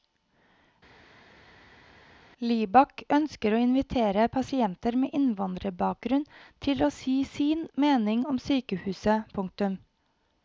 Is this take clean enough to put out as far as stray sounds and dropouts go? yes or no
yes